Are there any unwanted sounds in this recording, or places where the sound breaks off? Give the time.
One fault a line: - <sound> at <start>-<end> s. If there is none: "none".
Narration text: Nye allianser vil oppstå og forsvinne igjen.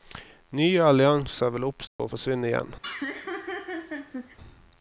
- dropout at 1.9-2.0 s
- laugh at 2.8-4.4 s